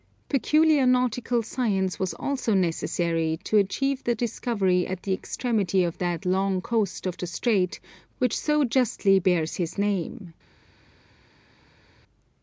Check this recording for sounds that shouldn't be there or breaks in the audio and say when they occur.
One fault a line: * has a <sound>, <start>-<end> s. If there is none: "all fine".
all fine